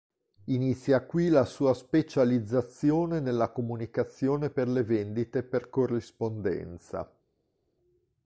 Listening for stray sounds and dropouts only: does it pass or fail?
pass